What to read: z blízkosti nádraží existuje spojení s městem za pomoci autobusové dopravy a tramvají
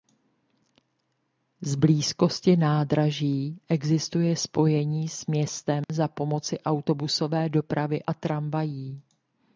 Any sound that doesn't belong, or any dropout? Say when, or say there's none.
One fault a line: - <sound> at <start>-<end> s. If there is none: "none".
- dropout at 5.8-5.9 s